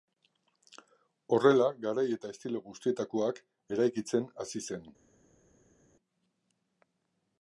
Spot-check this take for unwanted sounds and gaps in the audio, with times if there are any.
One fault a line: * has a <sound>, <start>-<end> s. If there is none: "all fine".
all fine